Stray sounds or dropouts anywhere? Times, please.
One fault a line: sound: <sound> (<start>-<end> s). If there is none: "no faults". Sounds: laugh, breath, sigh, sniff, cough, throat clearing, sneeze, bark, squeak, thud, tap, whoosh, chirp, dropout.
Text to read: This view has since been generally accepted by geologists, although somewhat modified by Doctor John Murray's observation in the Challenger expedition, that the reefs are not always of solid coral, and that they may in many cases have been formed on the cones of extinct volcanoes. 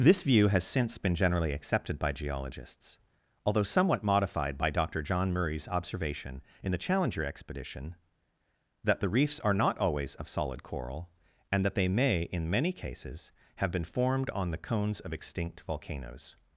no faults